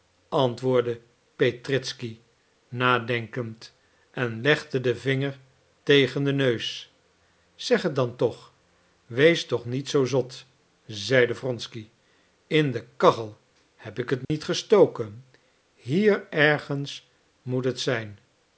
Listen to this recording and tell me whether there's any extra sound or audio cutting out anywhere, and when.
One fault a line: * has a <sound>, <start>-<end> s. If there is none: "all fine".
* has a dropout, 14.2-14.3 s